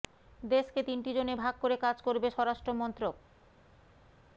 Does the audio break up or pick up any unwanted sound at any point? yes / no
no